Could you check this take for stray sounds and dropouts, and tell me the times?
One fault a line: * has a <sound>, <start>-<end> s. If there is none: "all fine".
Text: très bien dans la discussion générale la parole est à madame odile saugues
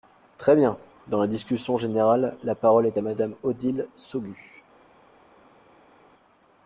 all fine